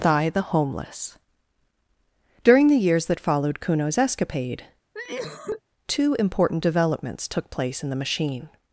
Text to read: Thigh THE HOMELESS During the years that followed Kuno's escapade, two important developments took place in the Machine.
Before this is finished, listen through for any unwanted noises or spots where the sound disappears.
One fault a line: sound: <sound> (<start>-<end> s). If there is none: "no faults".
sound: cough (4.9-5.6 s)